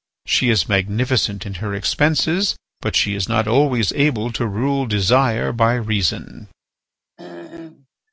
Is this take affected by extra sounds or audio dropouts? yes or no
yes